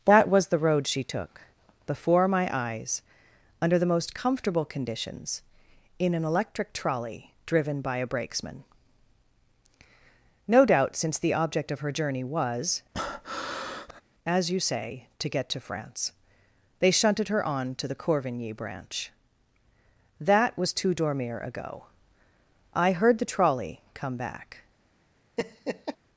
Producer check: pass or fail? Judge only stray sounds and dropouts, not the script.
fail